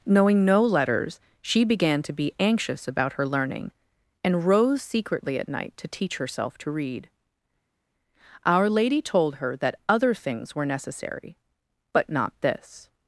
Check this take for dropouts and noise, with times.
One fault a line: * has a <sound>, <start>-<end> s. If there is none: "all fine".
all fine